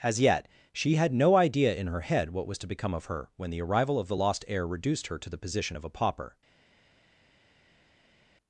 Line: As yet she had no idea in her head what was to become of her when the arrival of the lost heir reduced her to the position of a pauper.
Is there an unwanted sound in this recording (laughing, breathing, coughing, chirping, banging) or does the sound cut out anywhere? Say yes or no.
no